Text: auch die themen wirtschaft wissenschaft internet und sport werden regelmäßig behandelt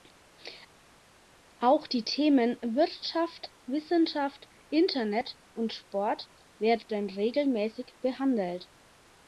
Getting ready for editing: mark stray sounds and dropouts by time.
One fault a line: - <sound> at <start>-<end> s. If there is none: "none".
none